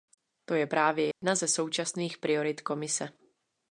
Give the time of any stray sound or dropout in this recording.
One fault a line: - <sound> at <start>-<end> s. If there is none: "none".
- dropout at 1.1-1.2 s